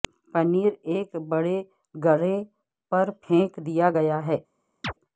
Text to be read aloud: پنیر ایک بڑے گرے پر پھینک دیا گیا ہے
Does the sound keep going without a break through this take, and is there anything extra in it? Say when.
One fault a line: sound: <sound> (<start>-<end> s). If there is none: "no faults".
sound: chirp (4.8-4.9 s)